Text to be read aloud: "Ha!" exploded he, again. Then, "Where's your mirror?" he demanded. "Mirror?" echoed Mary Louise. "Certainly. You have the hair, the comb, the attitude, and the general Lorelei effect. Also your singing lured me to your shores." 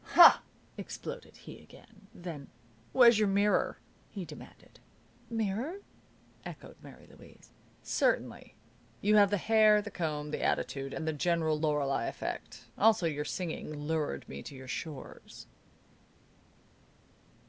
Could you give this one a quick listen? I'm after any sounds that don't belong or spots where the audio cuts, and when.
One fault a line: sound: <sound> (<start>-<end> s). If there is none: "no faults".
no faults